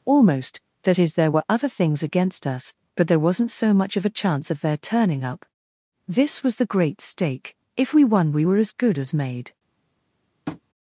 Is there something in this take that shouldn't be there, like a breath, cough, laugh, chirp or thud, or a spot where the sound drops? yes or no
yes